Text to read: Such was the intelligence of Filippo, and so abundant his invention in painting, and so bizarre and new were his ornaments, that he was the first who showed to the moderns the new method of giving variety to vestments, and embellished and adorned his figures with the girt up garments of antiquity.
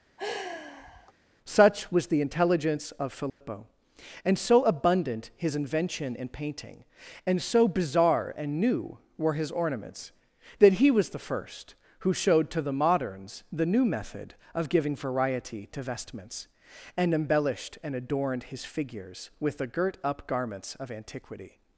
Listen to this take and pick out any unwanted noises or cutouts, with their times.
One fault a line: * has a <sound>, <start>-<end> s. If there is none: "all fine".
* has a sigh, 0.2-1.1 s
* has a dropout, 3.3-3.4 s